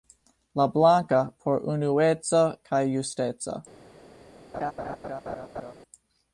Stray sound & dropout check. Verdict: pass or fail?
fail